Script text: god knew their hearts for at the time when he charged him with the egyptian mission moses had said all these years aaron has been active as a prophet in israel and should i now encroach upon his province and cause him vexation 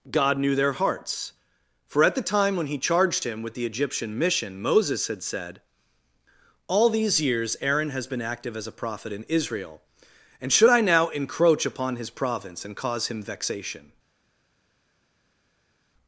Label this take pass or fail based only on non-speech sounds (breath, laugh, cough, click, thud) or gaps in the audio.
pass